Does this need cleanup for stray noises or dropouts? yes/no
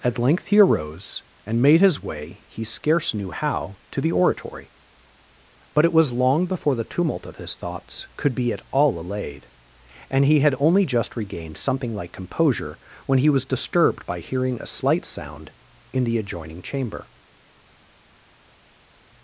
no